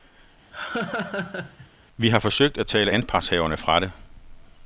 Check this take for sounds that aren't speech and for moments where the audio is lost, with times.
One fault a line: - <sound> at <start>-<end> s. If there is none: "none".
- laugh at 0.5-1.7 s